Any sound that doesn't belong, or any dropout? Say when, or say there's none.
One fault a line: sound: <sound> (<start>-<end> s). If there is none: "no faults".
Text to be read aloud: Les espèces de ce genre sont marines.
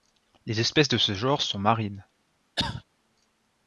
sound: cough (2.6-2.8 s)